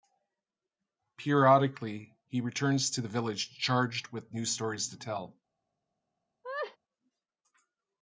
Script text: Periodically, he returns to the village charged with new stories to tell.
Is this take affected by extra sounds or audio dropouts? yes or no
yes